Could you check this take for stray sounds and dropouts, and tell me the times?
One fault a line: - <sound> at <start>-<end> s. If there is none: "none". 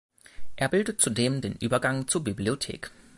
none